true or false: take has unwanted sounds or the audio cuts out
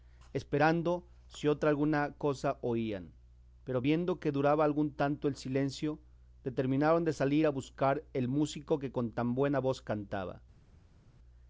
false